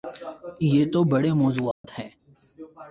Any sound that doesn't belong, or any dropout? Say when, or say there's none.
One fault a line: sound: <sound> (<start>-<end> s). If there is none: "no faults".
sound: dropout (1.7-1.8 s)